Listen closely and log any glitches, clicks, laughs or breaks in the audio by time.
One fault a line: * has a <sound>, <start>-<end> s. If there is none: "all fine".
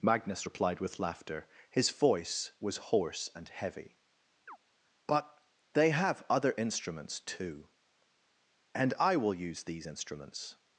* has a chirp, 4.5-4.6 s